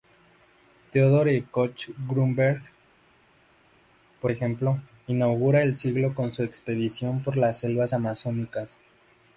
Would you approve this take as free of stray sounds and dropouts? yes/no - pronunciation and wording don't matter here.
yes